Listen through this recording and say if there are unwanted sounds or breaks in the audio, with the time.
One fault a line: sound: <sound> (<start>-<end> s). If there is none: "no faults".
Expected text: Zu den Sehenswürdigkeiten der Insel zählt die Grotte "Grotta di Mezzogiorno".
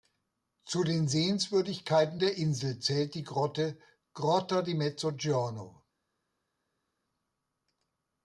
no faults